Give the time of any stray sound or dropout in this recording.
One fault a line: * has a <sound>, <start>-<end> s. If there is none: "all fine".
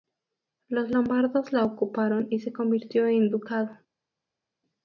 all fine